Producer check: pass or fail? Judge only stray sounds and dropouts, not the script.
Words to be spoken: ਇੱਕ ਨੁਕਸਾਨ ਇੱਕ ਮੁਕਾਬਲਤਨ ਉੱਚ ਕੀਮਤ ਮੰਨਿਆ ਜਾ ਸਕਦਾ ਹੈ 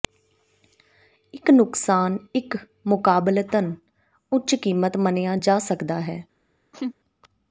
fail